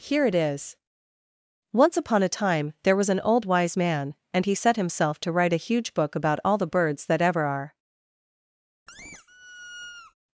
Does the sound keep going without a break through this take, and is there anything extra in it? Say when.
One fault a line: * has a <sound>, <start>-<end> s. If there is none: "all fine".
* has a squeak, 8.9-10.1 s